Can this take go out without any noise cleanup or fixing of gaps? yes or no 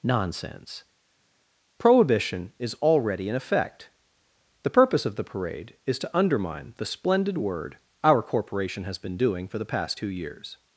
yes